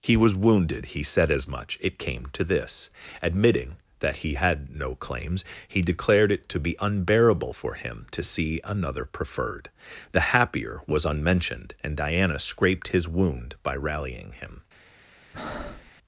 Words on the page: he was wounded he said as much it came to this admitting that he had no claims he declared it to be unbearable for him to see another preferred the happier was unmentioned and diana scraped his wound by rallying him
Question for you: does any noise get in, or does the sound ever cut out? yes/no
yes